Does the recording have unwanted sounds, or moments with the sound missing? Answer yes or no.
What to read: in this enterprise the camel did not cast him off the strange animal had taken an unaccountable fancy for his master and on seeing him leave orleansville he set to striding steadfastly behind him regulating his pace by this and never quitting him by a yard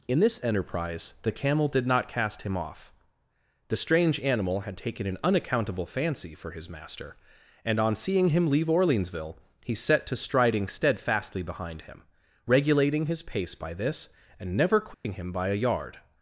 yes